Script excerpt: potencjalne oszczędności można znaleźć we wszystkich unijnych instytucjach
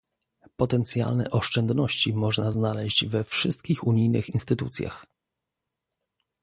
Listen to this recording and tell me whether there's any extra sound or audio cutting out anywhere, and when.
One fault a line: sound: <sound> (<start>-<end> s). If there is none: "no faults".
no faults